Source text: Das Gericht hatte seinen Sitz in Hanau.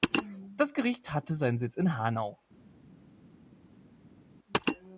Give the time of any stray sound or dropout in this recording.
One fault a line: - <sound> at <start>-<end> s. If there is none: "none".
none